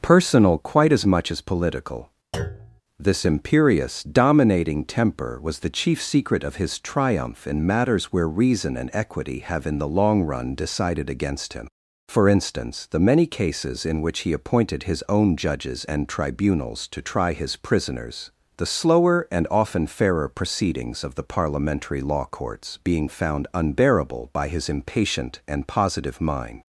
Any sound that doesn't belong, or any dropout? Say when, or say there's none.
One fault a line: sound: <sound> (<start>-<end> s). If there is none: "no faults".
sound: thud (2.3-2.8 s)